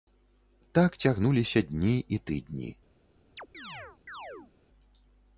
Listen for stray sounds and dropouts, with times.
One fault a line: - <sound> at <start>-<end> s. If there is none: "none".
- chirp at 3.4-4.5 s